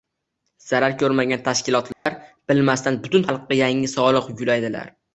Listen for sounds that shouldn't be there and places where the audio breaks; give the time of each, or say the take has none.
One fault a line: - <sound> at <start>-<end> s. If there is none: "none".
- dropout at 1.9-2.1 s